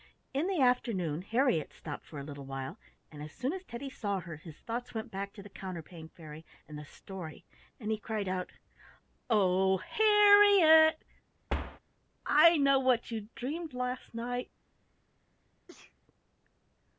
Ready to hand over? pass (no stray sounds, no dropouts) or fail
fail